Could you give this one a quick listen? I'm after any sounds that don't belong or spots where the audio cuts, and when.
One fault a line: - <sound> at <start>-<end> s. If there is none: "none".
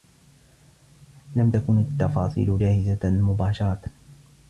none